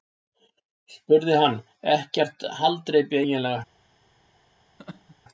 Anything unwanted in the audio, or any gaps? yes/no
yes